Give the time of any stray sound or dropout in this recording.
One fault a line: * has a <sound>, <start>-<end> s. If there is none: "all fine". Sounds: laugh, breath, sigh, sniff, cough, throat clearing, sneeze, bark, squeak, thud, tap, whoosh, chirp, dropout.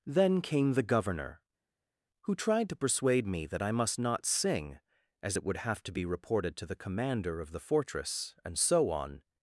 all fine